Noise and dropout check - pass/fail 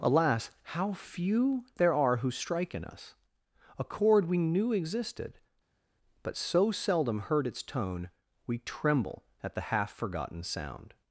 pass